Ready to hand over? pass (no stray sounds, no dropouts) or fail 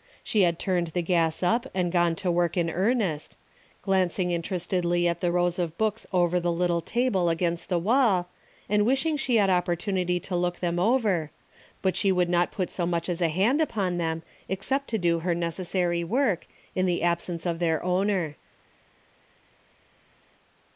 pass